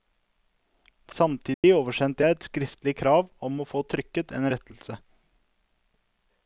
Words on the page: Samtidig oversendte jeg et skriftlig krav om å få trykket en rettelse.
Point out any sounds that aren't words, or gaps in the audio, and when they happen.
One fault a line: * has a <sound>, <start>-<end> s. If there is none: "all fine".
* has a dropout, 1.5-1.6 s